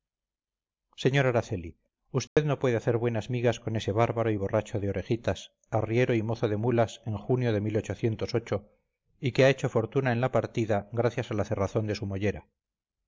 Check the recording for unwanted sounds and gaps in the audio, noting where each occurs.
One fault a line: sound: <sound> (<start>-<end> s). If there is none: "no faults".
sound: dropout (2.3-2.4 s)